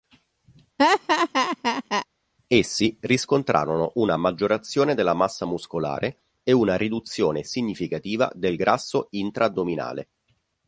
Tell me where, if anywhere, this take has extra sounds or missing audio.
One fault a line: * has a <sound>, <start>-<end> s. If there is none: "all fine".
* has a laugh, 0.8-2.1 s